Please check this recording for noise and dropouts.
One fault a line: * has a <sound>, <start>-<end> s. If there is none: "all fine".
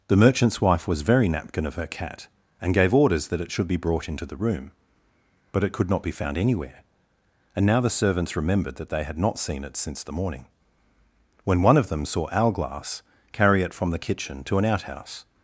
all fine